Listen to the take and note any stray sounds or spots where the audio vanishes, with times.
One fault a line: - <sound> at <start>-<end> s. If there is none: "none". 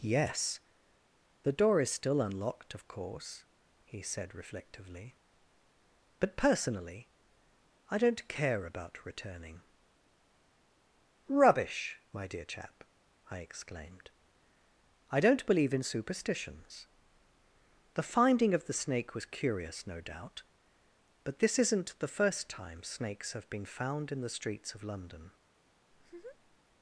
- laugh at 25.9-26.6 s